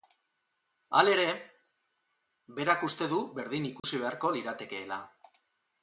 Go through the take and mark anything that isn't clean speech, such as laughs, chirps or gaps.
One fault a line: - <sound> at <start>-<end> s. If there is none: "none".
- dropout at 3.8-3.8 s